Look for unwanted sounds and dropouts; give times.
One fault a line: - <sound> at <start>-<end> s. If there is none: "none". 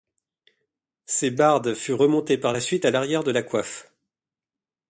none